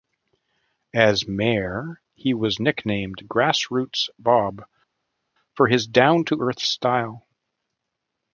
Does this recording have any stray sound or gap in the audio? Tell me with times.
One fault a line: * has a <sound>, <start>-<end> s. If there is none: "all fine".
all fine